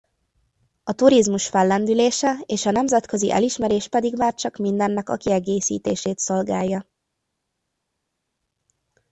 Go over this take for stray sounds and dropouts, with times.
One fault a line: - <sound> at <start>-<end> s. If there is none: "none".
none